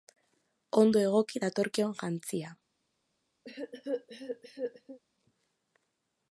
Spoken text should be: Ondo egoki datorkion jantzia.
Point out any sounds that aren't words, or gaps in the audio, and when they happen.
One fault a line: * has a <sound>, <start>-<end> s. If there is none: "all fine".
* has a cough, 3.4-5.0 s